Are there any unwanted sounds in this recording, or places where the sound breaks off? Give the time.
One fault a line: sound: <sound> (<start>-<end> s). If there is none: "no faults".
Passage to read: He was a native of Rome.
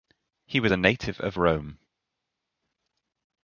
no faults